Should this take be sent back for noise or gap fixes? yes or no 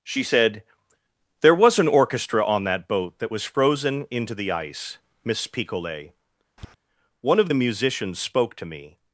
yes